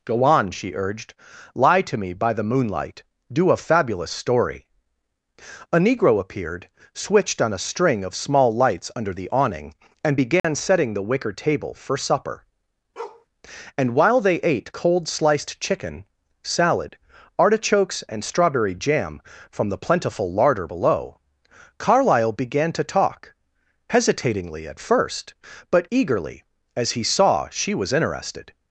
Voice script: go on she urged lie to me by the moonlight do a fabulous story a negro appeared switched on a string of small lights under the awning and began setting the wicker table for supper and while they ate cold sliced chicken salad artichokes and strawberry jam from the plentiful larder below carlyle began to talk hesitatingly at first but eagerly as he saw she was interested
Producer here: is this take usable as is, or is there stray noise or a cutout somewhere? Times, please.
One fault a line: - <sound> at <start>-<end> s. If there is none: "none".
- dropout at 10.4-10.4 s
- bark at 13.0-13.3 s